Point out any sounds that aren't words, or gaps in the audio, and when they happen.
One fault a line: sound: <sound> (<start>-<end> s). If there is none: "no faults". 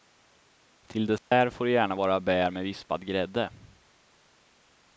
sound: dropout (1.2-1.3 s)